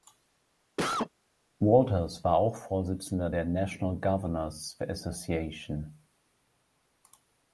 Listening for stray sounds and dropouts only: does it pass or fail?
fail